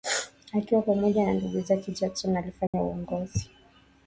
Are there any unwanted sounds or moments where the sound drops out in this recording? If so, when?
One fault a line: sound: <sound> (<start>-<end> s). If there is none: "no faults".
sound: dropout (2.7-2.7 s)